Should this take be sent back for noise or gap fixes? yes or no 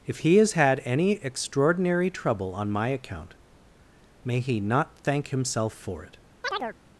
yes